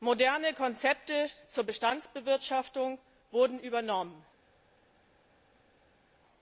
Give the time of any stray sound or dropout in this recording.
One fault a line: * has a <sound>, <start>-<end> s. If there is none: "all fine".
all fine